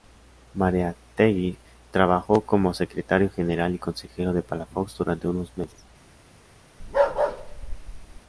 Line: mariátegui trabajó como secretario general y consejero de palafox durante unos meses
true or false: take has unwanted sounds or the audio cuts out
true